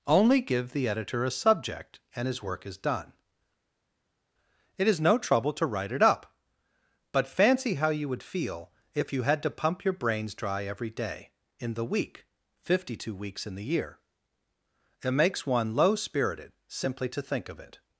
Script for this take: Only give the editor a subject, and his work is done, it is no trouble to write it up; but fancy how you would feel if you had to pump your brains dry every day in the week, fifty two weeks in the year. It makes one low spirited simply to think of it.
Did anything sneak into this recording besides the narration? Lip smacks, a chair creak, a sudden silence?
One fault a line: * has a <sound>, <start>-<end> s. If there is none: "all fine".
all fine